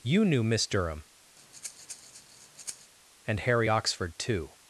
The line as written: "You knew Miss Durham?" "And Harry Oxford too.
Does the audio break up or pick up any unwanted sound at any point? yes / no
yes